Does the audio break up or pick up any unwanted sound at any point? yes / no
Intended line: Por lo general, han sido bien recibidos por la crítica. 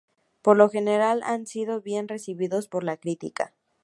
no